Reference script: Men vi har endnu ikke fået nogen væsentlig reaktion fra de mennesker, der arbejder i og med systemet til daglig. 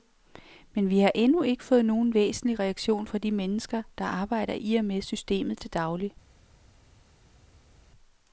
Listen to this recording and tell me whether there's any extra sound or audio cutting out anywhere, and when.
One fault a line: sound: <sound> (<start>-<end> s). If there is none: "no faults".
no faults